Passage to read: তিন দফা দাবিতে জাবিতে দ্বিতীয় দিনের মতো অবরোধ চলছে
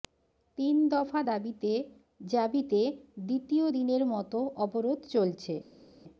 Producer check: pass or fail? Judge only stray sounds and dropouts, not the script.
pass